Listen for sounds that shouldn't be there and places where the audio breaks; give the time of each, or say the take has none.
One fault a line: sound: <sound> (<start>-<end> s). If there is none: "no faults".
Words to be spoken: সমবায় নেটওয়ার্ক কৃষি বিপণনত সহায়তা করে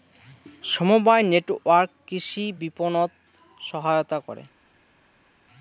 no faults